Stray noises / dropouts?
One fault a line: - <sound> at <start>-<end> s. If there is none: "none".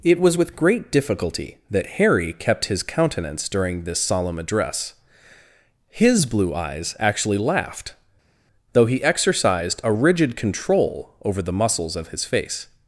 none